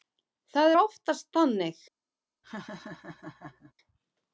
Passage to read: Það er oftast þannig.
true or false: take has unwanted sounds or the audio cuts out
true